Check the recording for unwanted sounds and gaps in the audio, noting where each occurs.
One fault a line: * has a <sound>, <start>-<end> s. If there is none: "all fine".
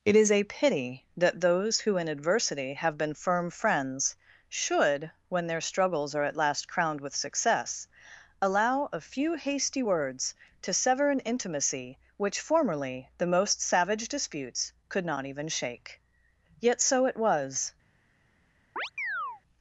* has a chirp, 18.8-19.4 s